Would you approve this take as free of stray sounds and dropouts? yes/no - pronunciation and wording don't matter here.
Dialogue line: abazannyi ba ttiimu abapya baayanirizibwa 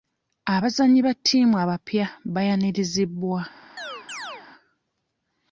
no